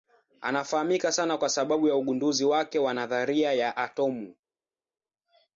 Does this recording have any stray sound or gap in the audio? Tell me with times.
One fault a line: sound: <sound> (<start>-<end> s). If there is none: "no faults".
no faults